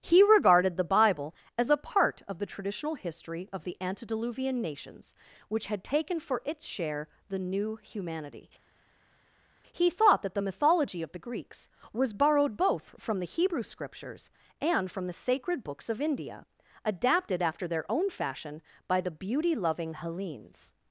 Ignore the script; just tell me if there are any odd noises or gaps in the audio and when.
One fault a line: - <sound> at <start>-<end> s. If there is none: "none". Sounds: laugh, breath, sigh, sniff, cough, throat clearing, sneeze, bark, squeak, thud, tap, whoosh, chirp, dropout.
none